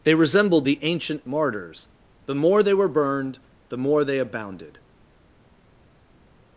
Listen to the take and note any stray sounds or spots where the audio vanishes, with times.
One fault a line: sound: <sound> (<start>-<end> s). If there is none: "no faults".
no faults